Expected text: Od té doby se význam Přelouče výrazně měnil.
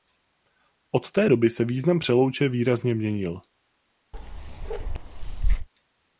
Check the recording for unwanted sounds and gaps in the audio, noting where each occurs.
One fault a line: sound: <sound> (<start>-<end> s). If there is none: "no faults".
sound: bark (4.1-5.7 s)